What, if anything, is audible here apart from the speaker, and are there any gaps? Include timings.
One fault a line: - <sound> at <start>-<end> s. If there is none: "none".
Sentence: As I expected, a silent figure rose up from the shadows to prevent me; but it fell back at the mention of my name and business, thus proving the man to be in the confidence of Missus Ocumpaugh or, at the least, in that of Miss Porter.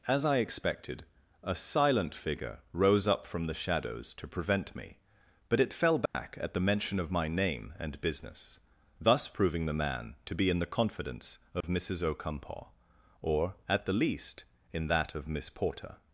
- dropout at 6.1-6.1 s
- dropout at 11.6-11.6 s